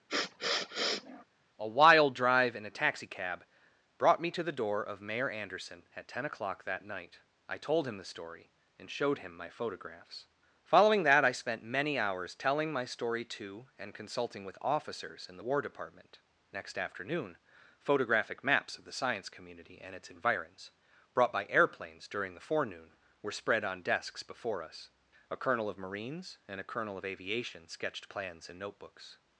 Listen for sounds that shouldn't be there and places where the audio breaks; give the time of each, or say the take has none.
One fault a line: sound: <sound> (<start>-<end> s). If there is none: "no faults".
sound: sniff (0.1-1.2 s)